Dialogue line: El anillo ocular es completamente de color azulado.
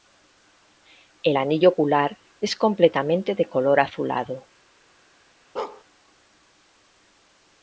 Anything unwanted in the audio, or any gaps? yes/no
yes